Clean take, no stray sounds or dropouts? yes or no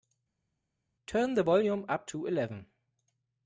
yes